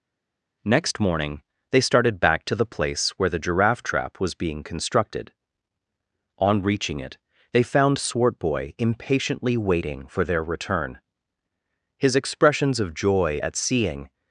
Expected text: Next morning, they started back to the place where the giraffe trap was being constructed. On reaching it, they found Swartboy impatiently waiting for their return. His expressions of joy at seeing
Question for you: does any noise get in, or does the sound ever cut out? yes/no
no